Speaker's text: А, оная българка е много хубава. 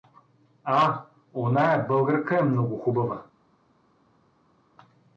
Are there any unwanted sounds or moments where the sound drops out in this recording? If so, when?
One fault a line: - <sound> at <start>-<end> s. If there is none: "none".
none